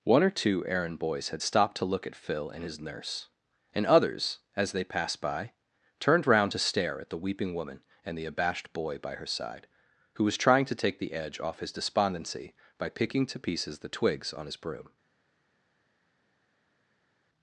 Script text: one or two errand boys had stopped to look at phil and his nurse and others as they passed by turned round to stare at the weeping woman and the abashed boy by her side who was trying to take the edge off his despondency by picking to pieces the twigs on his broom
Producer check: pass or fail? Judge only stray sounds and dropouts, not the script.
pass